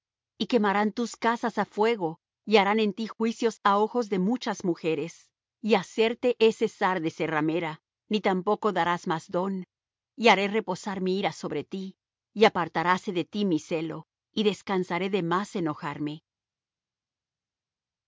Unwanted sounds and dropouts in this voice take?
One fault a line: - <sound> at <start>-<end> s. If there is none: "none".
none